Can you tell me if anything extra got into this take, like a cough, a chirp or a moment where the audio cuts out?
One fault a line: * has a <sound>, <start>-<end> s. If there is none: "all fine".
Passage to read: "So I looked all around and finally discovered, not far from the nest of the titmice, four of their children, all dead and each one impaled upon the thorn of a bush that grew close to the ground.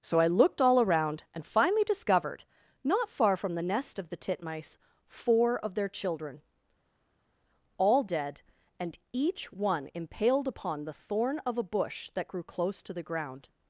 all fine